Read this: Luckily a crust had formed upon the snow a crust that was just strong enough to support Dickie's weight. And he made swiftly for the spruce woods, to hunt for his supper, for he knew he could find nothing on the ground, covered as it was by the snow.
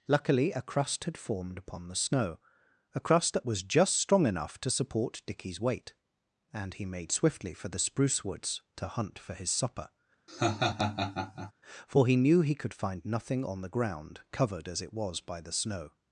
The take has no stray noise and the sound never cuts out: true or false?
false